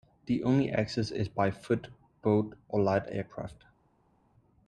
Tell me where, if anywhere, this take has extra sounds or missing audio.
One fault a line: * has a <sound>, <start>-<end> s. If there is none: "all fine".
all fine